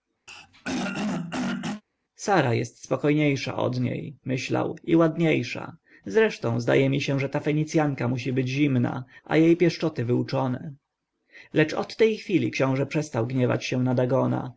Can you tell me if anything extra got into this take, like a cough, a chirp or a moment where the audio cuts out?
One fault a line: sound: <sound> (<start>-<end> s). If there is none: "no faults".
sound: throat clearing (0.3-1.8 s)